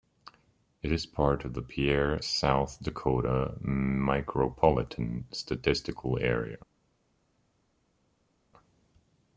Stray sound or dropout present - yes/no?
no